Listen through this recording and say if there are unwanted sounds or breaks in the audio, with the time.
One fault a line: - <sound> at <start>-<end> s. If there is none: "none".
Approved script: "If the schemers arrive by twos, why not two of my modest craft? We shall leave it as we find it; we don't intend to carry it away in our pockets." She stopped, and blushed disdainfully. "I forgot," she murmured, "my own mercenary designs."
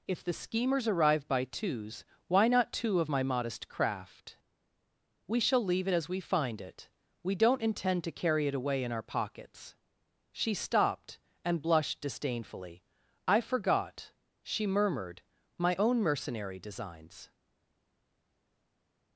none